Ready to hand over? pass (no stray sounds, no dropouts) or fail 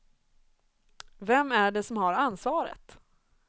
pass